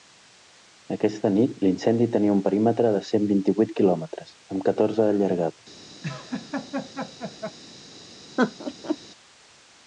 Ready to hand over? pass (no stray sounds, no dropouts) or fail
fail